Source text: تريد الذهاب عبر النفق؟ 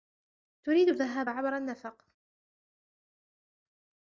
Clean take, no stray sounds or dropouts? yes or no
yes